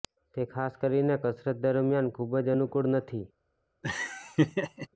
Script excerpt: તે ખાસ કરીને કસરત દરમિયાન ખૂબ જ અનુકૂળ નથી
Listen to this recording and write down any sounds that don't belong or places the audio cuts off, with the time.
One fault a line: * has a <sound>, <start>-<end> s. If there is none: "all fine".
* has a laugh, 3.8-4.9 s